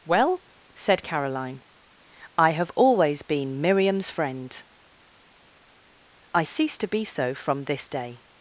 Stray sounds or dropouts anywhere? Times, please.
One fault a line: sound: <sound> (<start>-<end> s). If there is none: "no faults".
no faults